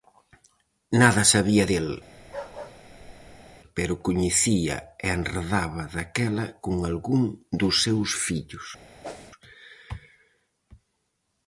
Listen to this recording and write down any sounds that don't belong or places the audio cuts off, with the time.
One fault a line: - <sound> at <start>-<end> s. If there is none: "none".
- bark at 2.2-3.6 s
- whoosh at 9.0-9.3 s